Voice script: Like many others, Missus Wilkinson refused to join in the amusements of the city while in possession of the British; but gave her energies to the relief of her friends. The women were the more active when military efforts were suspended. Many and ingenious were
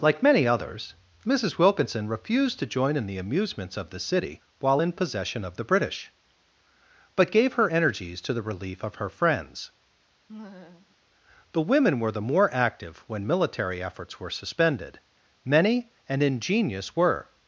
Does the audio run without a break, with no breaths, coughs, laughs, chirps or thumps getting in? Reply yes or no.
no